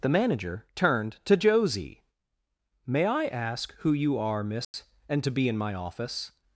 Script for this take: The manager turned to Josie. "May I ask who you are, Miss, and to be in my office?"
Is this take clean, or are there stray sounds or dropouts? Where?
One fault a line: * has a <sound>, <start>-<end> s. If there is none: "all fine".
* has a dropout, 4.6-4.7 s